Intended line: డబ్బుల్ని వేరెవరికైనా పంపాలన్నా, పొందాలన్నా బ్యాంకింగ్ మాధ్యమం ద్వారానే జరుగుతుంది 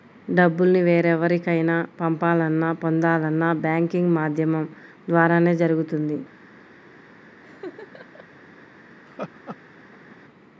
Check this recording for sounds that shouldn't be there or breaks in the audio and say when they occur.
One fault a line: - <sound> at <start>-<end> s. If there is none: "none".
- laugh at 7.4-8.3 s
- laugh at 9.1-10.2 s